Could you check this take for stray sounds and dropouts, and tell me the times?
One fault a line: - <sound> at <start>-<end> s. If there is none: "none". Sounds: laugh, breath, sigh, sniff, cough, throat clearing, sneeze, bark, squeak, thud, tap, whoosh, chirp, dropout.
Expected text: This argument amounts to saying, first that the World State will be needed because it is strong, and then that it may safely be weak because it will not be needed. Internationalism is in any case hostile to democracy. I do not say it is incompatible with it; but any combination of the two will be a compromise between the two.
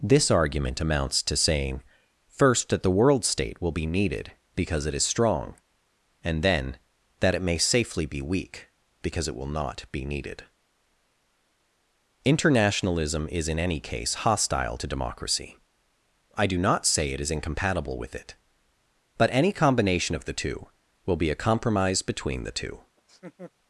- laugh at 23.0-23.5 s